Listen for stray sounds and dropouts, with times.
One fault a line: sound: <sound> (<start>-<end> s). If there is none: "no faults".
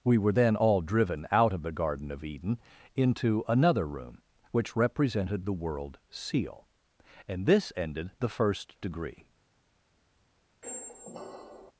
sound: squeak (10.6-11.7 s)